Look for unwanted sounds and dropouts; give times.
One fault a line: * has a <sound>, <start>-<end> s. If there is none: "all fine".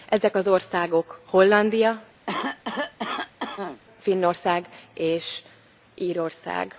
* has a cough, 2.3-3.8 s